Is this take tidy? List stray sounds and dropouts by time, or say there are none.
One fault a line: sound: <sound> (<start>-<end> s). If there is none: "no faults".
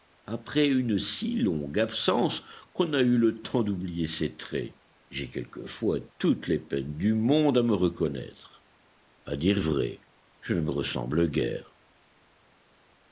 no faults